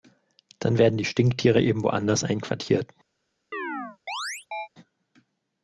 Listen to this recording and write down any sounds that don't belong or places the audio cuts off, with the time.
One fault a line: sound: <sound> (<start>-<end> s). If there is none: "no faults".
sound: chirp (3.5-4.7 s)